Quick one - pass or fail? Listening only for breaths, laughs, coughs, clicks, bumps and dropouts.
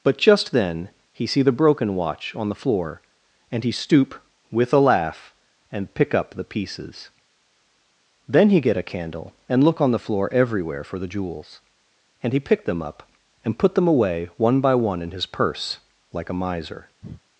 fail